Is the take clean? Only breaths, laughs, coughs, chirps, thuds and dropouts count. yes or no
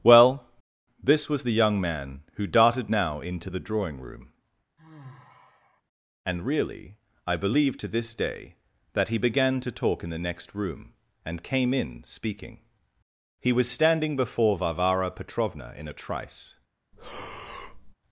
no